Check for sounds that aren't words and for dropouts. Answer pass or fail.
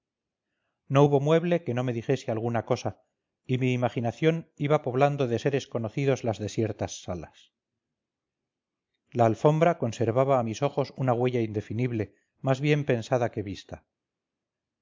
pass